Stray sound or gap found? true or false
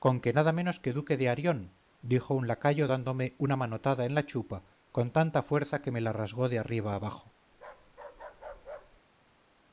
true